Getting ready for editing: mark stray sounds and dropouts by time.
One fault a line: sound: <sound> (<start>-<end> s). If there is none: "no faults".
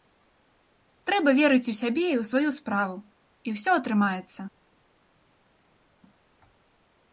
no faults